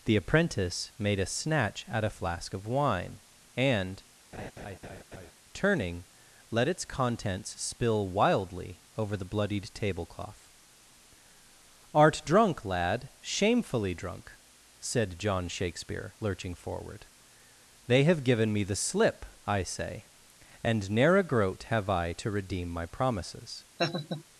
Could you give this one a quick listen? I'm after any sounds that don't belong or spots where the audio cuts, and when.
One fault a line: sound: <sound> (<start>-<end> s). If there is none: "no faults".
sound: laugh (4.3-5.3 s)
sound: laugh (23.8-24.2 s)